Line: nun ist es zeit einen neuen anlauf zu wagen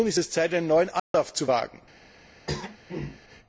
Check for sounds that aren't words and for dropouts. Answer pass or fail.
fail